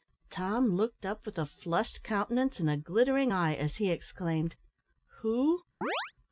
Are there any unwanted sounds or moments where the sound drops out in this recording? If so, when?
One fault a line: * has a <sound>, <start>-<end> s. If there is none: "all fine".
* has a chirp, 5.8-6.1 s